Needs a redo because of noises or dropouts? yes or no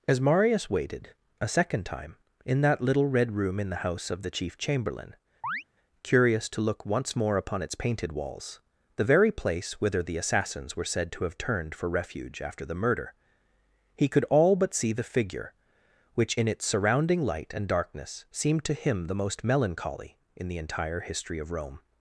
yes